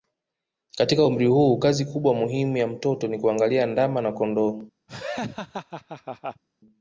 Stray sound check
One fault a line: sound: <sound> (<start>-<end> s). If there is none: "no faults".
sound: laugh (4.9-6.4 s)